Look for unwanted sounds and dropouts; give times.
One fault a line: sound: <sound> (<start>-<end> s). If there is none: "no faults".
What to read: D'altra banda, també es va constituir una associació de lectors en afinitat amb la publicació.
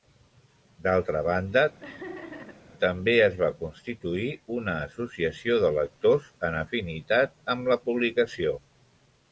sound: laugh (1.8-2.7 s)